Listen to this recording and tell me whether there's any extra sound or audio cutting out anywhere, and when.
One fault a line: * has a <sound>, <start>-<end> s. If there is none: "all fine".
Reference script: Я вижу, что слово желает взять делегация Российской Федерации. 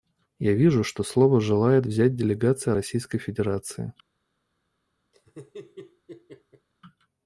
* has a laugh, 5.1-6.7 s